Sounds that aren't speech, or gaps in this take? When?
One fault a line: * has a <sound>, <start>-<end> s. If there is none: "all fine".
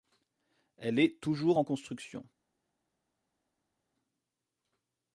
all fine